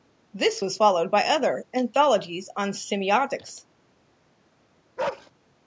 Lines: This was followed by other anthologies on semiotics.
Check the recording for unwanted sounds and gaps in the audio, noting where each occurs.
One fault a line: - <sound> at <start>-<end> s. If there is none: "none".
- bark at 5.0-5.3 s